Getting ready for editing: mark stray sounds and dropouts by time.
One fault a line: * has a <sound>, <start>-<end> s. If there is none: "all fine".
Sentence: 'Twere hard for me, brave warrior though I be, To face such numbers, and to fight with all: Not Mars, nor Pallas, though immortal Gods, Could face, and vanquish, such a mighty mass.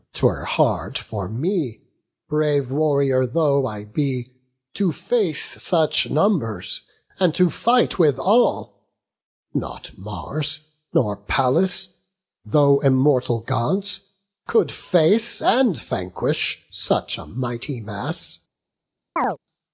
* has a chirp, 19.2-19.4 s